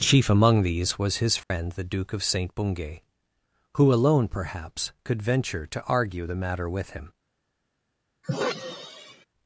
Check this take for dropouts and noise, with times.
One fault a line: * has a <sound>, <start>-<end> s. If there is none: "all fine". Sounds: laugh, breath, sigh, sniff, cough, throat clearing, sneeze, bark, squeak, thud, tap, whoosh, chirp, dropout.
* has a dropout, 1.4-1.5 s
* has a sigh, 8.2-9.3 s